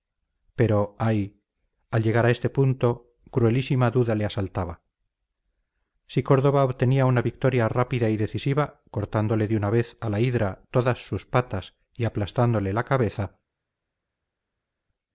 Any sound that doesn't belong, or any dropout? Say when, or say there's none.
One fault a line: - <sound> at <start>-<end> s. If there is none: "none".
none